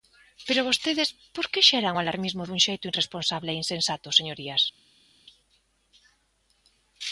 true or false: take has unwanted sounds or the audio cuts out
false